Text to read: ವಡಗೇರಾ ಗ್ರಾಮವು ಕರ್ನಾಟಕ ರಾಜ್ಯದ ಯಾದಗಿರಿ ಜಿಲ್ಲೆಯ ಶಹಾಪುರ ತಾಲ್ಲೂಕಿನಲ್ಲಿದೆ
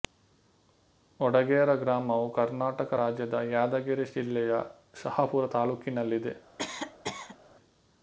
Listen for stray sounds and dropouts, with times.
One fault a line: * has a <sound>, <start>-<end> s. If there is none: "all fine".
* has a cough, 6.6-7.4 s